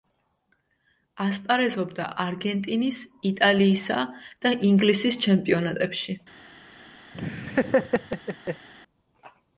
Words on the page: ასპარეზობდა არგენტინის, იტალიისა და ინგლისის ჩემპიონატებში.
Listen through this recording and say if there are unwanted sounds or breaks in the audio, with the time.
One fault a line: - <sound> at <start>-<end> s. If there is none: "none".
- laugh at 7.1-8.7 s